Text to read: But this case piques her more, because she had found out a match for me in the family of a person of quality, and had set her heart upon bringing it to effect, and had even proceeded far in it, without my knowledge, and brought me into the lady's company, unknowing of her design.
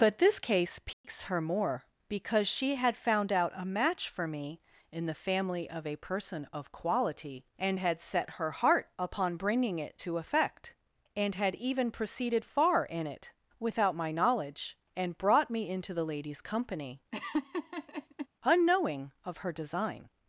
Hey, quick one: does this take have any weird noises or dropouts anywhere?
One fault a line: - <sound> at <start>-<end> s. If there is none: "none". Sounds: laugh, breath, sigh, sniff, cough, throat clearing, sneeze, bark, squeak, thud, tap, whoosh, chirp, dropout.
- dropout at 0.9-1.0 s
- laugh at 17.1-18.3 s